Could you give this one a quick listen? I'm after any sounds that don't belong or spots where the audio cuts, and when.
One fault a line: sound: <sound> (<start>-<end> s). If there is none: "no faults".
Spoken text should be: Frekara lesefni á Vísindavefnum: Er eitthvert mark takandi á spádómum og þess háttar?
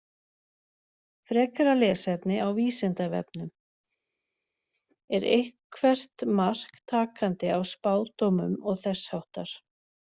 no faults